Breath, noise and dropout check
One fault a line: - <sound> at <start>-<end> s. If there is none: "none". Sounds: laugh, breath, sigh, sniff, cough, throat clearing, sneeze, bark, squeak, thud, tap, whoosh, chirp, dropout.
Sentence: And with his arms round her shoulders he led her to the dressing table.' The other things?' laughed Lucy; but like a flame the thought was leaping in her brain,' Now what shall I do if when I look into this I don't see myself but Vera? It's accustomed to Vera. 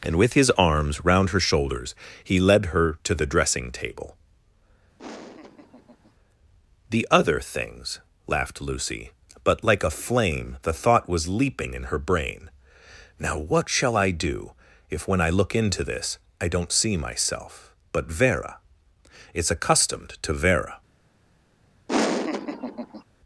- laugh at 5.0-6.1 s
- laugh at 21.9-23.0 s